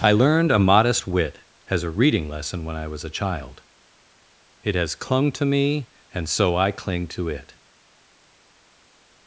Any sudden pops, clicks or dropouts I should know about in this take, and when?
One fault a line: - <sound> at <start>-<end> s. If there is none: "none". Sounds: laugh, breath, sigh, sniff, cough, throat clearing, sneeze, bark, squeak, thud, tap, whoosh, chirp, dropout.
none